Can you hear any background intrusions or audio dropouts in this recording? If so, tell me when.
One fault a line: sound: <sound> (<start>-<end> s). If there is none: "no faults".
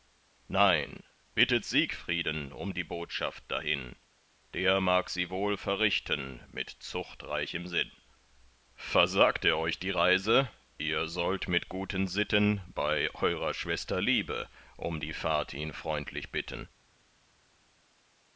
no faults